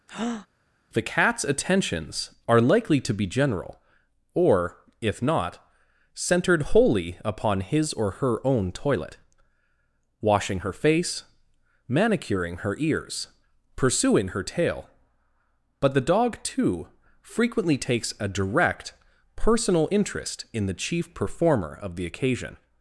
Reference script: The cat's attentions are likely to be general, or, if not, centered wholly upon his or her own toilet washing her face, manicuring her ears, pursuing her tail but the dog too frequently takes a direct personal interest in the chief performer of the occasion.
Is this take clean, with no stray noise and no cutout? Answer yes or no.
no